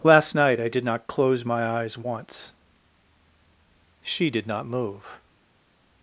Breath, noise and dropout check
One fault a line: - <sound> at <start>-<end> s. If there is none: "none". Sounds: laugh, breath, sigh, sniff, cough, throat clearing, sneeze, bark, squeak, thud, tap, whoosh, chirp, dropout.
none